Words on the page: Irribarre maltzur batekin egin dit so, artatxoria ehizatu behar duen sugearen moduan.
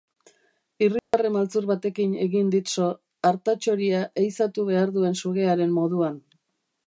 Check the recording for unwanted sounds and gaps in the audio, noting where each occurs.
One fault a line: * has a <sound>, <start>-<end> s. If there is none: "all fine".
* has a dropout, 1.0-1.1 s